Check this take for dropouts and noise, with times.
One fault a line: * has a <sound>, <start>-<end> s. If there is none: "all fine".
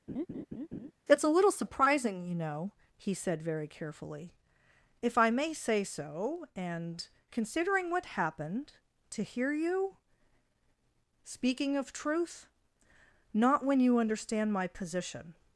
* has a laugh, 0.1-0.9 s